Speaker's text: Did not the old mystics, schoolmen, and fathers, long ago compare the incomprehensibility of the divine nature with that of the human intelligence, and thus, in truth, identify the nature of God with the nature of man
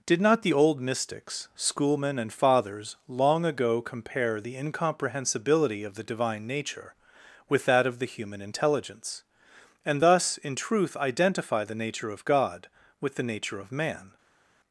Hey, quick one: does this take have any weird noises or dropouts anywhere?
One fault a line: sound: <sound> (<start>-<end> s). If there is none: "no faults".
no faults